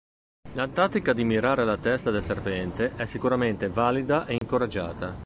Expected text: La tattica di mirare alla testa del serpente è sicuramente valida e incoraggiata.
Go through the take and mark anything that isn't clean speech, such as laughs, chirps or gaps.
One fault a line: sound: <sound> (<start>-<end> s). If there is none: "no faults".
sound: dropout (4.4-4.4 s)